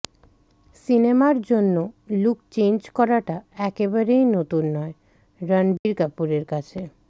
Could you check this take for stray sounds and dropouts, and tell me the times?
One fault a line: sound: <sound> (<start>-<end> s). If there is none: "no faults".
sound: dropout (5.8-5.9 s)